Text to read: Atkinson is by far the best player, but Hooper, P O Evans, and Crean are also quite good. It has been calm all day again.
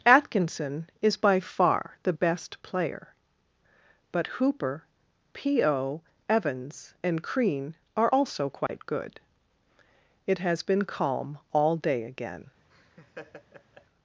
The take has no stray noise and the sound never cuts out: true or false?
false